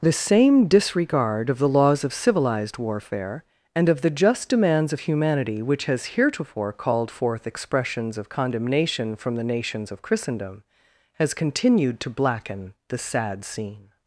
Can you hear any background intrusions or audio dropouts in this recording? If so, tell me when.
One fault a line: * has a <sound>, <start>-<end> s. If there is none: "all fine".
all fine